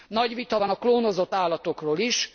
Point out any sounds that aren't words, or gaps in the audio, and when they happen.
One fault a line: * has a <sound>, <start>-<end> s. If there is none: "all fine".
all fine